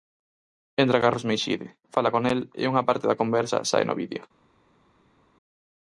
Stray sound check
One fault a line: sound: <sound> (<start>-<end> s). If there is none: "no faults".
no faults